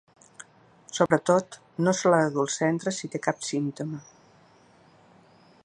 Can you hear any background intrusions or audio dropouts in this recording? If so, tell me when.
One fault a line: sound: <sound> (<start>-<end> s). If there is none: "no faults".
sound: dropout (1.1-1.1 s)